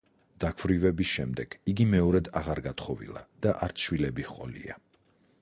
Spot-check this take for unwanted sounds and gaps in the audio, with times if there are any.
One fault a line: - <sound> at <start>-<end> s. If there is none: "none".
none